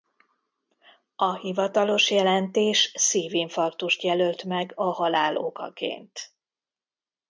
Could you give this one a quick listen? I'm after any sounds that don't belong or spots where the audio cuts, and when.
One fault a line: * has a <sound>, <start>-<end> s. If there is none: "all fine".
all fine